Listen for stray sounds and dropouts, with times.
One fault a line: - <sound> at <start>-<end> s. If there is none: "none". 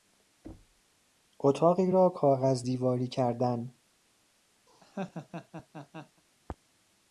- thud at 0.4-0.8 s
- laugh at 4.7-6.2 s